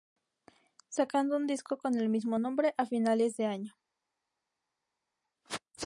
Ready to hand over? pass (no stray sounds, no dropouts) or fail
pass